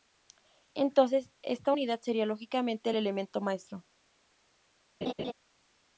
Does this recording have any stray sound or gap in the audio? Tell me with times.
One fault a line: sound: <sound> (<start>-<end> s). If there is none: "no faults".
sound: laugh (5.0-5.3 s)